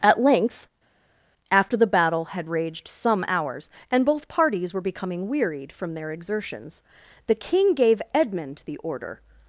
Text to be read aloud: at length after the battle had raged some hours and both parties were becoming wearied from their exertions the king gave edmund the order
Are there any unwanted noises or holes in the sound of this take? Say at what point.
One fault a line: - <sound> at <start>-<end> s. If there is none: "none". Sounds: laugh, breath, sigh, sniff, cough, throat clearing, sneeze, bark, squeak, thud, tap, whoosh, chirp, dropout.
none